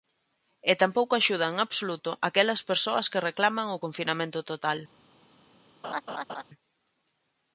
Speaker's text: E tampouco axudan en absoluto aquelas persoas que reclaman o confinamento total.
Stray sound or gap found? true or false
true